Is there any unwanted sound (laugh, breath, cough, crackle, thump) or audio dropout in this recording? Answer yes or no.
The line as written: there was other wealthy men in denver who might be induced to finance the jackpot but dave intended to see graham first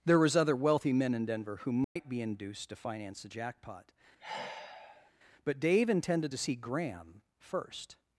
yes